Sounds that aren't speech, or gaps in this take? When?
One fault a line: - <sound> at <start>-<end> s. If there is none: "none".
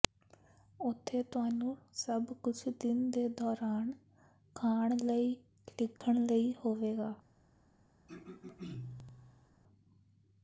- dropout at 6.0-6.0 s
- throat clearing at 8.1-9.5 s